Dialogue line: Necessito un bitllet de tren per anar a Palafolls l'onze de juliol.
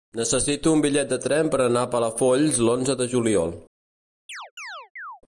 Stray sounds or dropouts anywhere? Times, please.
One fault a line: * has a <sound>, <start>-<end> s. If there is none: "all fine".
* has a chirp, 4.3-5.2 s